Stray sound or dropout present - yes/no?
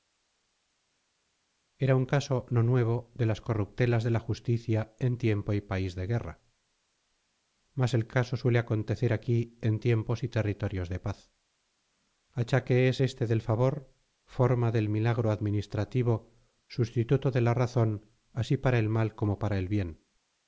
no